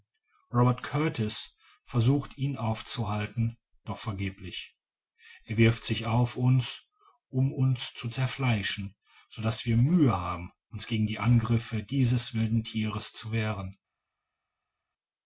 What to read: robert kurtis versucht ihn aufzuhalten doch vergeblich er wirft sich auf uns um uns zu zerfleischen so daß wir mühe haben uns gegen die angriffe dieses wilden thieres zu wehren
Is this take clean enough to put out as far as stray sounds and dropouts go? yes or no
yes